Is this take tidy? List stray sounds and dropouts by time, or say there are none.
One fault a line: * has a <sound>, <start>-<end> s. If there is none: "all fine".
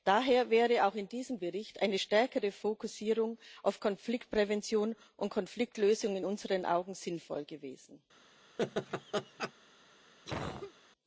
* has a laugh, 8.6-9.5 s
* has a cough, 10.3-10.7 s